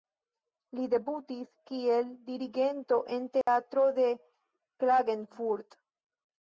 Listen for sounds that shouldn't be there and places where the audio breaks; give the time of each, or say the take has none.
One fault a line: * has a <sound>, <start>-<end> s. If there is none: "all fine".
* has a dropout, 3.4-3.5 s